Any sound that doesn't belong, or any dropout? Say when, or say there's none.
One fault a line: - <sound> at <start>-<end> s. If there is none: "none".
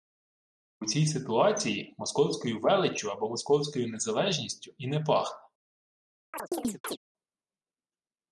- chirp at 6.3-7.0 s